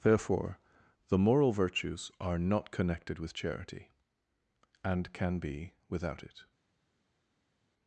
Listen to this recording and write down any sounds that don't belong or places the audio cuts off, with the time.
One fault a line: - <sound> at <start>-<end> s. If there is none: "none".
none